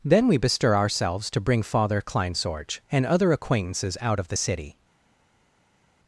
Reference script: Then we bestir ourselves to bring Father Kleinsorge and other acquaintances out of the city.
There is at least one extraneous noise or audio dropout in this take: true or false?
false